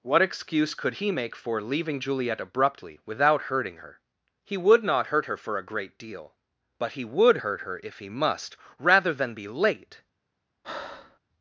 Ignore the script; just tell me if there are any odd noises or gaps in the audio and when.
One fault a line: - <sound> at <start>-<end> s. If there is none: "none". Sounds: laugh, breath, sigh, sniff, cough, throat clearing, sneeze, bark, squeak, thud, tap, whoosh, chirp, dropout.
- breath at 10.6-11.2 s